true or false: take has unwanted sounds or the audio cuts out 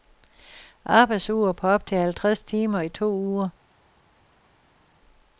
false